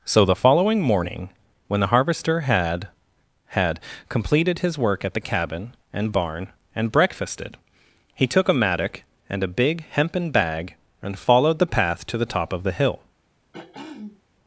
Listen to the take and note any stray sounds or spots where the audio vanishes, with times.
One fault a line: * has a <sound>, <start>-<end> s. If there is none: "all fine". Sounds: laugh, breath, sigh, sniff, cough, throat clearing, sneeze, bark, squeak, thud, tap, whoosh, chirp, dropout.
* has a throat clearing, 13.5-14.2 s